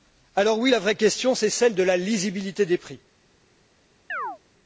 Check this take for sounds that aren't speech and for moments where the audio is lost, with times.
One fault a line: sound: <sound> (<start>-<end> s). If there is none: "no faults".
sound: chirp (4.1-4.4 s)